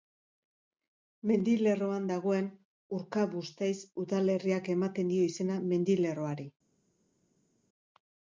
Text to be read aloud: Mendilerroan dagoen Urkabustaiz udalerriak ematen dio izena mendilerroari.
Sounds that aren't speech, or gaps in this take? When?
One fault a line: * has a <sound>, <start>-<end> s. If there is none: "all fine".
all fine